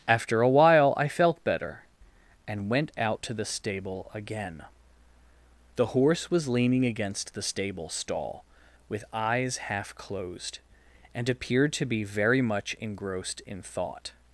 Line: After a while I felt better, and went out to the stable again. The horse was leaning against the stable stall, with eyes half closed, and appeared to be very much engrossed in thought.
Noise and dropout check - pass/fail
pass